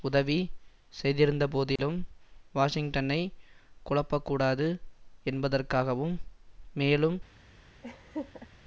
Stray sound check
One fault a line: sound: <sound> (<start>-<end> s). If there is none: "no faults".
sound: dropout (1.8-1.8 s)
sound: laugh (7.8-8.5 s)